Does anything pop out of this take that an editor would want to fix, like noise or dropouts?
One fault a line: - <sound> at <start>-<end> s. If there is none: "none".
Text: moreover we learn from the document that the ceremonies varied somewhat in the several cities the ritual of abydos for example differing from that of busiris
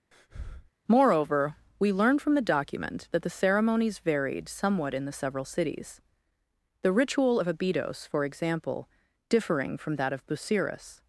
- breath at 0.1-0.7 s